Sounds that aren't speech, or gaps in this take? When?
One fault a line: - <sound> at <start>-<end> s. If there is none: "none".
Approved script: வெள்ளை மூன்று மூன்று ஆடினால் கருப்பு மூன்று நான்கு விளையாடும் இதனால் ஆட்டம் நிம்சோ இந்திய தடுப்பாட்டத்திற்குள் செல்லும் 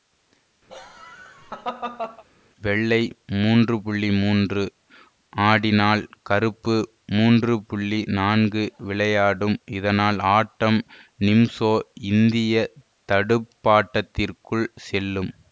- laugh at 0.7-2.2 s